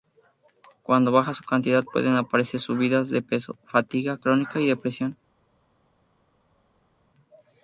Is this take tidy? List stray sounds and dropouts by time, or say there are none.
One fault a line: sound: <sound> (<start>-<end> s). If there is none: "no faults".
no faults